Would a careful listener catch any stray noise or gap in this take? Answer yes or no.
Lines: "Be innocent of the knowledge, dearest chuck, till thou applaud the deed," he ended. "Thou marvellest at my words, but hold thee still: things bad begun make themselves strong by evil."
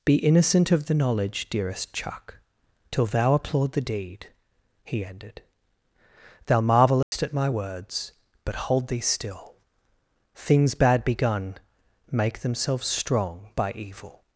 yes